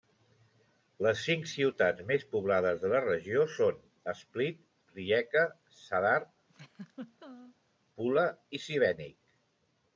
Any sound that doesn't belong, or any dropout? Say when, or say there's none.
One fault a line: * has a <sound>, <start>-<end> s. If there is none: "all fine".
* has a laugh, 6.5-7.6 s